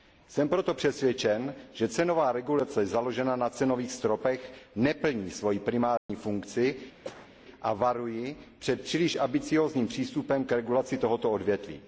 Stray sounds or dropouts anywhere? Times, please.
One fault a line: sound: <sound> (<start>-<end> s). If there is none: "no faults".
sound: dropout (6.0-6.1 s)
sound: cough (7.0-7.3 s)